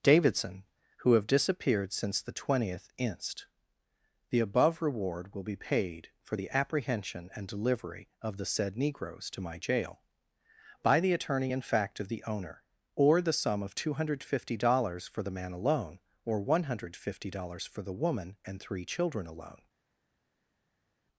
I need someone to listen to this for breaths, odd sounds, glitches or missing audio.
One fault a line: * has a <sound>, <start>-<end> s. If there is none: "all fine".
all fine